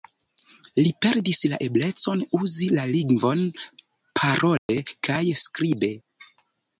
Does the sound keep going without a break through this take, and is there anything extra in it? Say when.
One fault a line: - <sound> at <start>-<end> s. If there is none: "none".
- dropout at 4.6-4.7 s